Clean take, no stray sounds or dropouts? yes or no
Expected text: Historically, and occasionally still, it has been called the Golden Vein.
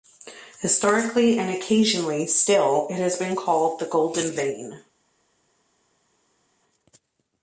yes